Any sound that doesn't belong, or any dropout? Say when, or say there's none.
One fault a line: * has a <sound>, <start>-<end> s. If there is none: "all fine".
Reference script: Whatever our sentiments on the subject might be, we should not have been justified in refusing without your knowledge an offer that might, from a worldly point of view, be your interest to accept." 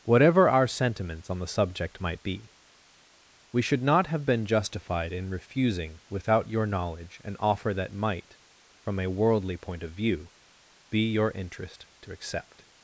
all fine